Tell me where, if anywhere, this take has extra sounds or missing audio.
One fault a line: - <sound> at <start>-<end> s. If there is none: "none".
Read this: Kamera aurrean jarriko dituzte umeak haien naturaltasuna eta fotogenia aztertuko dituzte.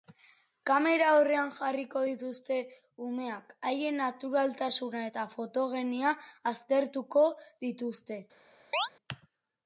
- chirp at 8.7-8.9 s